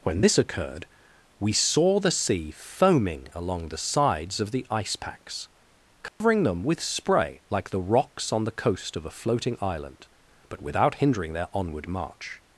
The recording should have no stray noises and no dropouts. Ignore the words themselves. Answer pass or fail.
fail